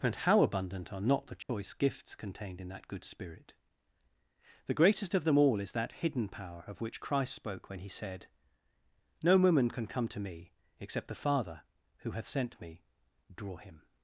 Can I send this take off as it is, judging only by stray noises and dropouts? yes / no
no